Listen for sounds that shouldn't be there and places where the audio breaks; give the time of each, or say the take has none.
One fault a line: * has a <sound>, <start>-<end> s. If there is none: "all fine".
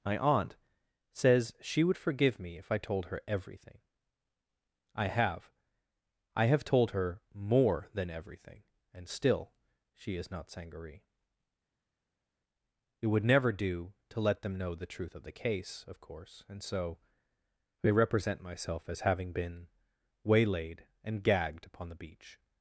all fine